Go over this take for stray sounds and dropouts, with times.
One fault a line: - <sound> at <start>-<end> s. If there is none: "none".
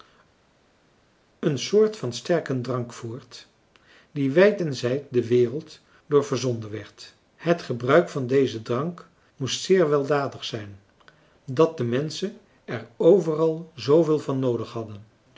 none